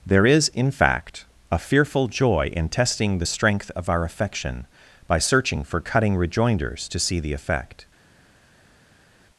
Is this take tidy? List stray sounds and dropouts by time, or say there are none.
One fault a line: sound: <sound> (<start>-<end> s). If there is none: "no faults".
no faults